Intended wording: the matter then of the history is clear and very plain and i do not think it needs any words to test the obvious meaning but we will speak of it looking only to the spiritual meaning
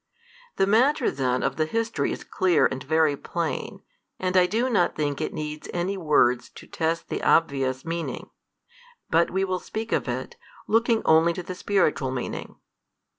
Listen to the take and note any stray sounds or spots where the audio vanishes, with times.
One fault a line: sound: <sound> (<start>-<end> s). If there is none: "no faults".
no faults